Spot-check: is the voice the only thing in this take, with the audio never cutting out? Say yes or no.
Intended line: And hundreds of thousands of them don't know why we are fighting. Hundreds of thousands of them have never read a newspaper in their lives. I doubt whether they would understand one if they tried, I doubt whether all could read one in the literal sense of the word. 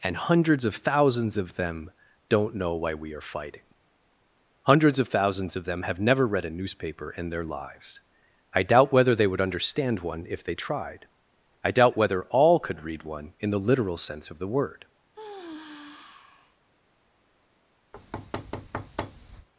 no